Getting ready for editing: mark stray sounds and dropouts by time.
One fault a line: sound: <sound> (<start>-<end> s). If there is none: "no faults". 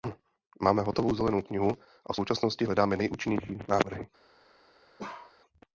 sound: bark (5.0-5.4 s)